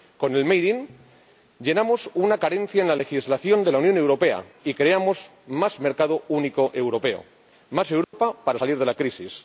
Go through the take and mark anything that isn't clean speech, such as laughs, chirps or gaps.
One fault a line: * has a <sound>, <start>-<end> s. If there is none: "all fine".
* has a dropout, 8.0-8.1 s